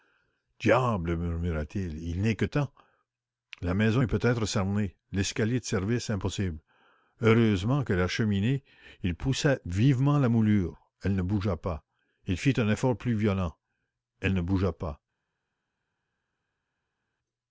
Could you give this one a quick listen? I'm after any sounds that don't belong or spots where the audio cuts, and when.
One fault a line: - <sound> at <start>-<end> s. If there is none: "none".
none